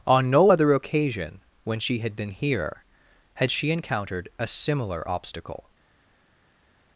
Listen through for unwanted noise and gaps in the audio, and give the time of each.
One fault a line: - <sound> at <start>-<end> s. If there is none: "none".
none